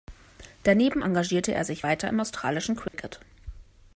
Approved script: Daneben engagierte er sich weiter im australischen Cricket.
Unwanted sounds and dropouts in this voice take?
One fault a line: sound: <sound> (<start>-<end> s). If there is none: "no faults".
sound: dropout (2.9-2.9 s)